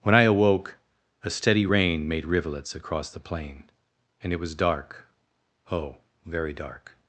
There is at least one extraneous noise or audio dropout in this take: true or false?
false